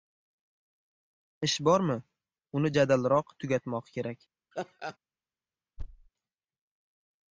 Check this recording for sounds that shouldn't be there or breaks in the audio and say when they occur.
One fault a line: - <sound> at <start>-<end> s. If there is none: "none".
- laugh at 4.5-5.0 s
- thud at 5.8-6.1 s